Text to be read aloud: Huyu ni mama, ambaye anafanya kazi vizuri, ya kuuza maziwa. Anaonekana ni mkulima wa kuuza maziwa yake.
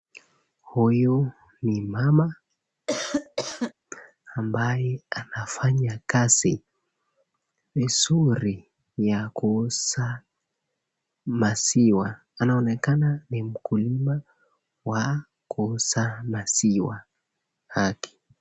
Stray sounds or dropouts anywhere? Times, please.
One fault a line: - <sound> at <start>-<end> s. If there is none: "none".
- cough at 2.9-3.7 s